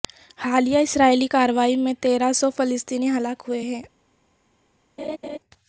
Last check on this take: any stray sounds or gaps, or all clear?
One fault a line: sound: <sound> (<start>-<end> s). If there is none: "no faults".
sound: laugh (5.0-5.4 s)